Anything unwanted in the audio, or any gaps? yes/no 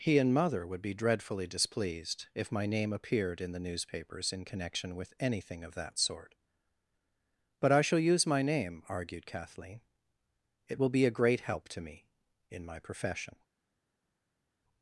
no